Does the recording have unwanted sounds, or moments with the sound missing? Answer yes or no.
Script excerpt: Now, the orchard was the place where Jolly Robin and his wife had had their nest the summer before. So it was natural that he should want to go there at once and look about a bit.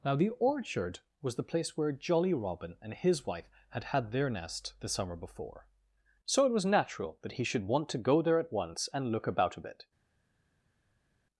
no